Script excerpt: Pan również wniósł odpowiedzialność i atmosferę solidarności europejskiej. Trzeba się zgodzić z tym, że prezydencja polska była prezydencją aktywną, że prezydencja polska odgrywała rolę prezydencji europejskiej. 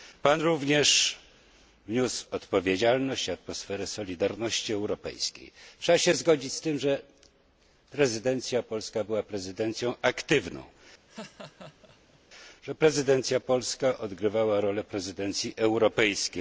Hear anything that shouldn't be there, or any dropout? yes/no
yes